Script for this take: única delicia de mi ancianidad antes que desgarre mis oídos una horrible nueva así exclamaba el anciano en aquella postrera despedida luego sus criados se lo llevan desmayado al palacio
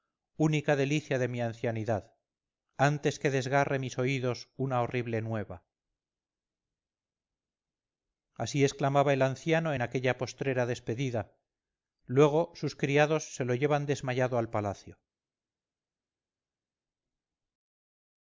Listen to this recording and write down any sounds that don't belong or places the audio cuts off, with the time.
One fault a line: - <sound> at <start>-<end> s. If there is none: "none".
none